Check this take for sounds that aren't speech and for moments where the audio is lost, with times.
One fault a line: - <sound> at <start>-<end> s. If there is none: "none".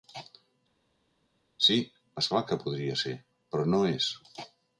none